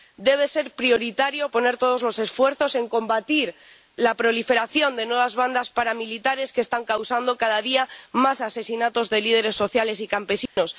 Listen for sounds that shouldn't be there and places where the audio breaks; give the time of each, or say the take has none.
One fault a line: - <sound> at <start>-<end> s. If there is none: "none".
- dropout at 10.5-10.6 s